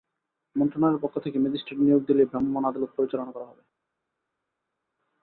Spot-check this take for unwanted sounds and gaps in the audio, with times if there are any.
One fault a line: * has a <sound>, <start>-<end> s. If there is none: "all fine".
all fine